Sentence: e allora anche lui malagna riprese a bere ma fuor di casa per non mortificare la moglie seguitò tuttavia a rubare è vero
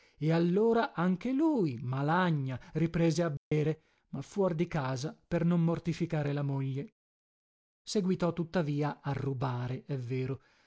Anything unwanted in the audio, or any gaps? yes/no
yes